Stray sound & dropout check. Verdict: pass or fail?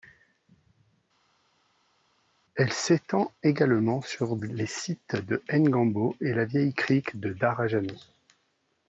pass